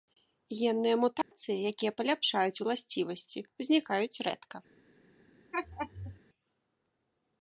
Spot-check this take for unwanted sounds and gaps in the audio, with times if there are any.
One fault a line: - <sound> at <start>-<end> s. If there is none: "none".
- dropout at 1.2-1.3 s
- laugh at 5.5-6.2 s